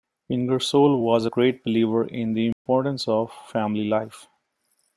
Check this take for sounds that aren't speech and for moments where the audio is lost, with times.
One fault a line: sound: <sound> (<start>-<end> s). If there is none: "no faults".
sound: dropout (2.5-2.7 s)